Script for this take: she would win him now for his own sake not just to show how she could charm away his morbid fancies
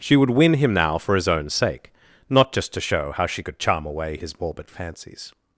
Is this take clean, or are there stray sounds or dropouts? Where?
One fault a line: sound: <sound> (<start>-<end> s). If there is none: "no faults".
no faults